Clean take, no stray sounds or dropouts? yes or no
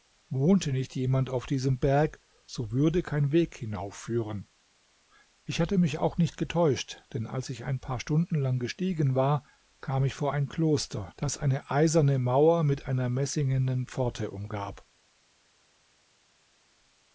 yes